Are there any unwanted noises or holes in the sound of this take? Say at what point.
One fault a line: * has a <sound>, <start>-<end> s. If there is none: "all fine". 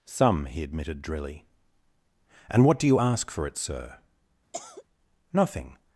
* has a cough, 4.5-4.8 s